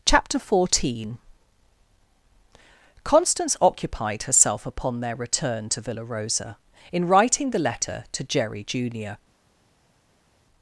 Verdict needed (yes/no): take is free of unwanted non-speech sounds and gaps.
yes